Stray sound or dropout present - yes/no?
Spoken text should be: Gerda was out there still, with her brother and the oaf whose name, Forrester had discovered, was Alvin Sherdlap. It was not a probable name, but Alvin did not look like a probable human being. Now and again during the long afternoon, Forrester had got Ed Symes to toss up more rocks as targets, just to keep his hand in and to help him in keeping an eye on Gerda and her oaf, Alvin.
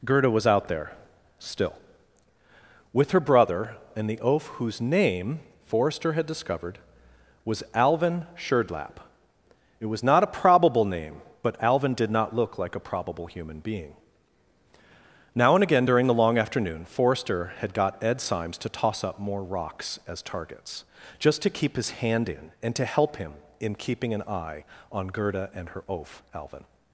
no